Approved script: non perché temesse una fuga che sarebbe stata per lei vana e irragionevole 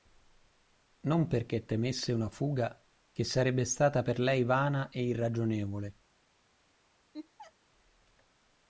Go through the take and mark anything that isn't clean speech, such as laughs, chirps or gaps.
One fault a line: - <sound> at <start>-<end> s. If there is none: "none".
- laugh at 7.1-7.5 s